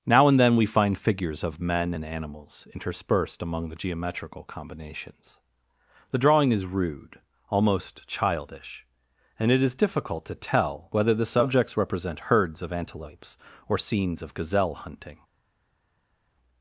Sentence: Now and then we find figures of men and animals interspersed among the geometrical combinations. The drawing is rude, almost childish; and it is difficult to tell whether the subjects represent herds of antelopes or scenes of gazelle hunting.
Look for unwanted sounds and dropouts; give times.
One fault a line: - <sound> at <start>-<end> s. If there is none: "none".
none